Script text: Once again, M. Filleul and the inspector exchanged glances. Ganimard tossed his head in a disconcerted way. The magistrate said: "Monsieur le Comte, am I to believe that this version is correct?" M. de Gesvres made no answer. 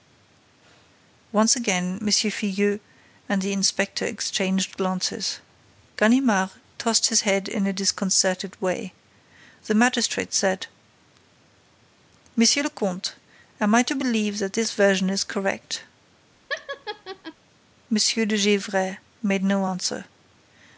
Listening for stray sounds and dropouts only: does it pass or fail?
fail